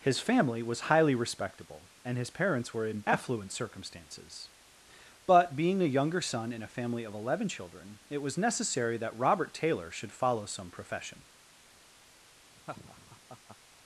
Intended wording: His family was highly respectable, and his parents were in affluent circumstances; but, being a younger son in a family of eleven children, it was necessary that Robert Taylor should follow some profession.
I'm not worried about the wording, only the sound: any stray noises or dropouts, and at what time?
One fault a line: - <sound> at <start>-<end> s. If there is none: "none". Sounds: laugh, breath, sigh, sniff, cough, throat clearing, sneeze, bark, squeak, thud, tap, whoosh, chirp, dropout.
- laugh at 12.5-13.6 s